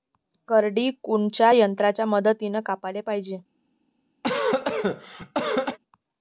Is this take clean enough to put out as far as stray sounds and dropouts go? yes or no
no